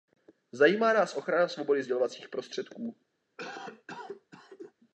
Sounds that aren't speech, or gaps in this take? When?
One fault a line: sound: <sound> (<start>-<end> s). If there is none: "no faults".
sound: cough (3.4-4.7 s)